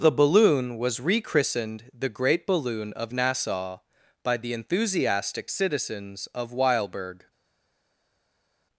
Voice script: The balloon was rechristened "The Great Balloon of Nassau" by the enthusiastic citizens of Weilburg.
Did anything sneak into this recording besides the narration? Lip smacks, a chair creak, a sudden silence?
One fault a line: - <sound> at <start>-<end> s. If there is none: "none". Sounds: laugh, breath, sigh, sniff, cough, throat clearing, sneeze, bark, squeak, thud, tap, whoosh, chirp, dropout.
none